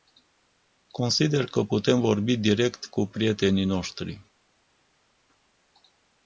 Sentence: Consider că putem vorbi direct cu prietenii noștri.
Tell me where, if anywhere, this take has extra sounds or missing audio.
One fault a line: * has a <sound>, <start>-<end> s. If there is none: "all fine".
all fine